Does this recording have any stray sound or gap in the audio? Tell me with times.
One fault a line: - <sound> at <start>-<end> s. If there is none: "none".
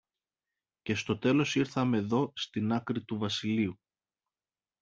none